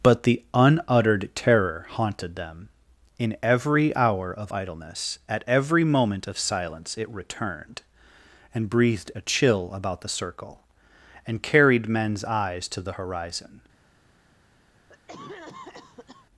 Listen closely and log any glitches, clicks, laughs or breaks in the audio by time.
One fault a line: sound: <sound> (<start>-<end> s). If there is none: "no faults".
sound: cough (14.9-16.3 s)